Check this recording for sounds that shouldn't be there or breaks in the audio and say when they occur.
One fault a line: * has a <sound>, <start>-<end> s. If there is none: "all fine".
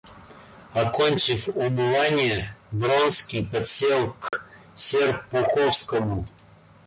* has a dropout, 4.3-4.3 s